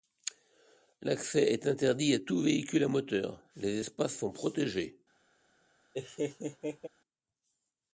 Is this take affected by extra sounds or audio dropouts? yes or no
yes